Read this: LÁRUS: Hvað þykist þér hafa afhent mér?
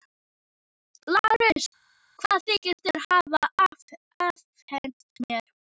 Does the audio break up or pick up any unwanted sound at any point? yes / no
no